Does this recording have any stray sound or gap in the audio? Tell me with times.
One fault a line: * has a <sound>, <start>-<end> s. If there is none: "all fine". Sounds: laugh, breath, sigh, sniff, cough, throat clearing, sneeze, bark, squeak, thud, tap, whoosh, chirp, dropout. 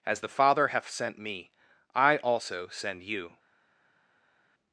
all fine